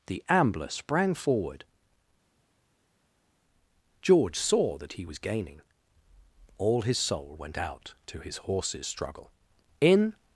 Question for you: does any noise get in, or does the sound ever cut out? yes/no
no